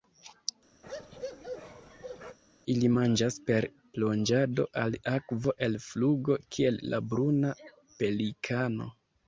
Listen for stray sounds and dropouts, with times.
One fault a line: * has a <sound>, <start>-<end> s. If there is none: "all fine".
* has a bark, 0.8-2.4 s